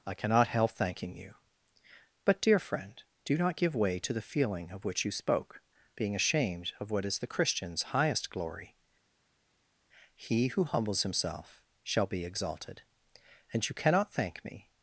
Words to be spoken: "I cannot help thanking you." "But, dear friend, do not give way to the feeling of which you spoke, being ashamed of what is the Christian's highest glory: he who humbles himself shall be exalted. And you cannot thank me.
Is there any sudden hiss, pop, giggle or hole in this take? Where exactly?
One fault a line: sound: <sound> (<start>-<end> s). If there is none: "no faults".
no faults